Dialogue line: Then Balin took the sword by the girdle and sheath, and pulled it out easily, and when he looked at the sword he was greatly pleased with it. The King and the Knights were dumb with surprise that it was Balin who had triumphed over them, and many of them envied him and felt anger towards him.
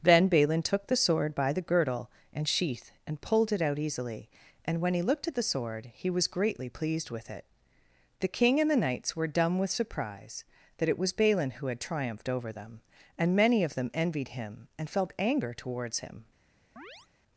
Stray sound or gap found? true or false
true